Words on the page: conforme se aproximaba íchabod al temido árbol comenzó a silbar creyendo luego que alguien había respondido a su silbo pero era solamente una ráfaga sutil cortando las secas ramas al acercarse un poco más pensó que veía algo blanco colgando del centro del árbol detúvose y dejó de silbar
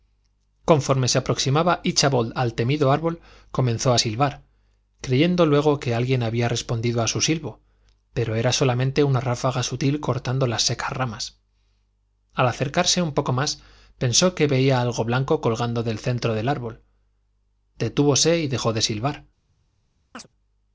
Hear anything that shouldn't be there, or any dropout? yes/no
yes